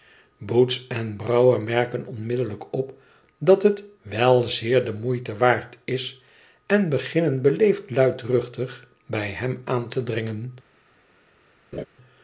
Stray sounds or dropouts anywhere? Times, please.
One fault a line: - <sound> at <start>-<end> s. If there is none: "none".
- laugh at 11.7-11.9 s